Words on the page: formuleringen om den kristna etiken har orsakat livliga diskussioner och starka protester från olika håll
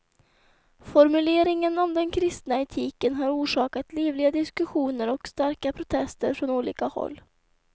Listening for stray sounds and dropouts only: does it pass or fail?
pass